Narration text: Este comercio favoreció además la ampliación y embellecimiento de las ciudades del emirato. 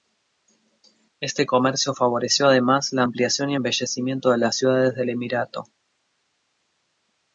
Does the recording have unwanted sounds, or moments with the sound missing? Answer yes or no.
no